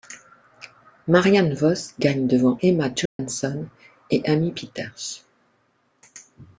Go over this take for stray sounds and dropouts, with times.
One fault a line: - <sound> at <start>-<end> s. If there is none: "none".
- dropout at 3.1-3.2 s